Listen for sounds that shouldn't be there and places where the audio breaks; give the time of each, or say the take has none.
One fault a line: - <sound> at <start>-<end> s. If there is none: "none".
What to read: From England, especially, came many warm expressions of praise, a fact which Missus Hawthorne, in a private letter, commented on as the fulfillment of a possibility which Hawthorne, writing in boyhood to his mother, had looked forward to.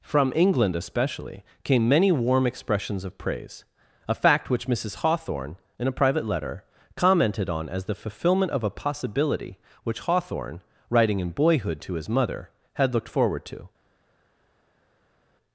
none